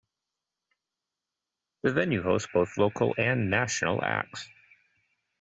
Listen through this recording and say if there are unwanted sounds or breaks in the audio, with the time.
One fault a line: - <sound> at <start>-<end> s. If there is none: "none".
none